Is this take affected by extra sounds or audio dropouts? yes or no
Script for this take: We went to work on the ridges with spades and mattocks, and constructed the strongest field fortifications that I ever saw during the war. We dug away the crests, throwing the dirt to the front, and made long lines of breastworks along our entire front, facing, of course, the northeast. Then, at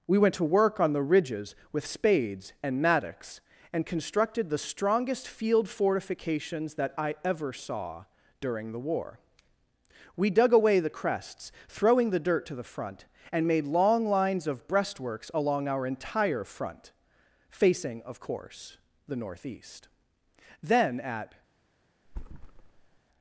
yes